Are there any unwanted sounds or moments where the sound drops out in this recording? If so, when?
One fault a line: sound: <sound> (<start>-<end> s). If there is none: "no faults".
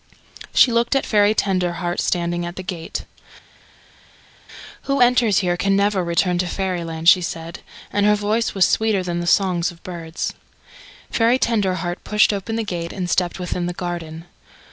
no faults